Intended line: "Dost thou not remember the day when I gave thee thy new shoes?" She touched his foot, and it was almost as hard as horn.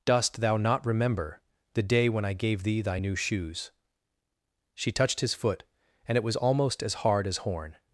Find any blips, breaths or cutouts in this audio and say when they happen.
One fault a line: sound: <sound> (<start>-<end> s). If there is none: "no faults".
no faults